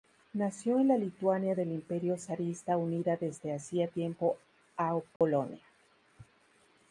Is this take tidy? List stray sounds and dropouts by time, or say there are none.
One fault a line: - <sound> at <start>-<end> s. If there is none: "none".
- dropout at 5.2-5.2 s